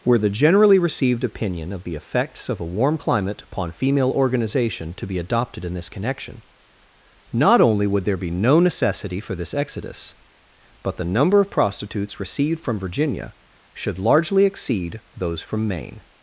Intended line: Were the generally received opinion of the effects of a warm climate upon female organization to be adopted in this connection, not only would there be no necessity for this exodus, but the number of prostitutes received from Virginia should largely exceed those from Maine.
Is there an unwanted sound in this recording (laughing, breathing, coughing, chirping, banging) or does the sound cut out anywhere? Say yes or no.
no